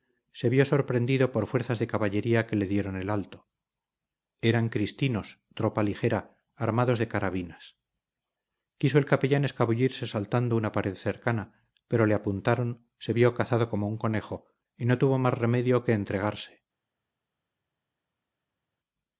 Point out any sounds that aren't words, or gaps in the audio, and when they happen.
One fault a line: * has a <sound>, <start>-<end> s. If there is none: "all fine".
all fine